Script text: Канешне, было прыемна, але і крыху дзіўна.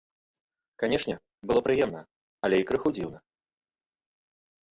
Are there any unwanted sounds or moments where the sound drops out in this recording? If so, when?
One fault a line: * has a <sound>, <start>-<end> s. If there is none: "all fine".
all fine